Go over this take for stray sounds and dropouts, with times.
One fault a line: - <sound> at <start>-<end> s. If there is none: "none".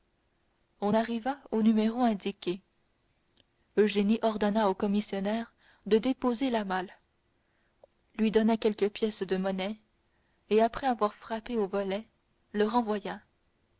none